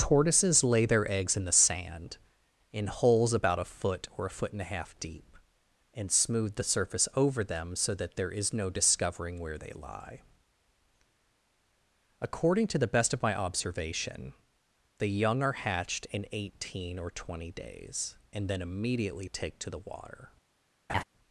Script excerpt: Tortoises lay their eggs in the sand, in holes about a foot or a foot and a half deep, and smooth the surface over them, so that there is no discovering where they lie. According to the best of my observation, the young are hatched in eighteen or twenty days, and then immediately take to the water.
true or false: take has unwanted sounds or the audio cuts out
true